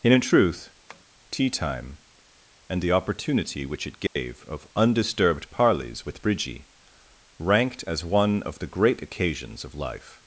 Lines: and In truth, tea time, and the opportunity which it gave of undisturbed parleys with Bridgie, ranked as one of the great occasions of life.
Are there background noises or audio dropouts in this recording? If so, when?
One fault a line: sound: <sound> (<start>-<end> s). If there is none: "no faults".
sound: tap (0.9-1.1 s)
sound: dropout (4.1-4.2 s)